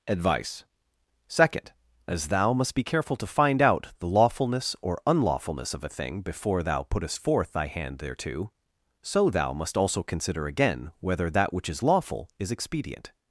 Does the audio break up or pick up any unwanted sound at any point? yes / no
no